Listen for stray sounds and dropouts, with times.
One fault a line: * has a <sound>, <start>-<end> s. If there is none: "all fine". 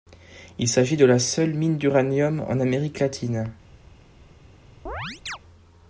* has a chirp, 4.9-5.4 s